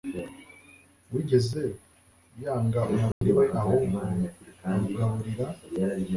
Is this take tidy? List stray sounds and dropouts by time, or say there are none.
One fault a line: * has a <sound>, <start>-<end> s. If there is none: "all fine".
* has a dropout, 3.1-3.2 s